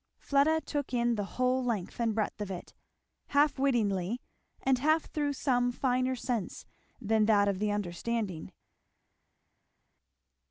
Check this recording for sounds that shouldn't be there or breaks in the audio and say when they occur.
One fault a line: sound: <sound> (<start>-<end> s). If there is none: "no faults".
no faults